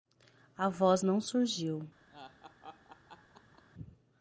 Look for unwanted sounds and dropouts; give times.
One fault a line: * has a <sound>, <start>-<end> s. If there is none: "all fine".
* has a laugh, 2.1-3.6 s